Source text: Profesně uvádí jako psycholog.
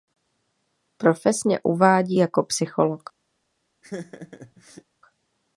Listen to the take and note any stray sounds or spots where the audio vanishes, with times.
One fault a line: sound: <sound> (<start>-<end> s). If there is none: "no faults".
sound: laugh (3.8-4.8 s)